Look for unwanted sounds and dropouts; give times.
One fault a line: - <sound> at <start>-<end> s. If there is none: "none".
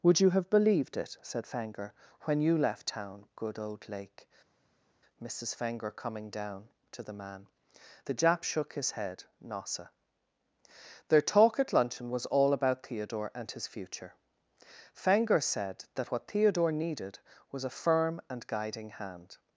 none